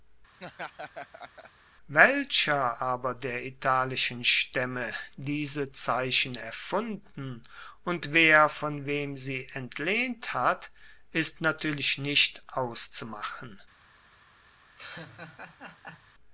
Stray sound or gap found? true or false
true